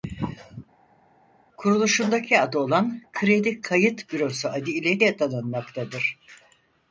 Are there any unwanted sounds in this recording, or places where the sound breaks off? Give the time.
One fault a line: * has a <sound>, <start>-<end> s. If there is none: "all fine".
all fine